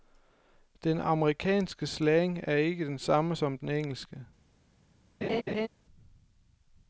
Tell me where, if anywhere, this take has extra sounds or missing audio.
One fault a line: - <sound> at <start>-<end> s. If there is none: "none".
- laugh at 5.2-5.7 s